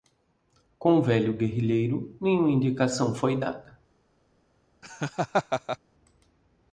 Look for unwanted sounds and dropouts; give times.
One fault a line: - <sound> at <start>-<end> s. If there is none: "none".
- laugh at 4.8-5.8 s